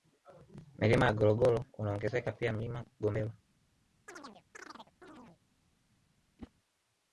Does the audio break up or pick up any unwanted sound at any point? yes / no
yes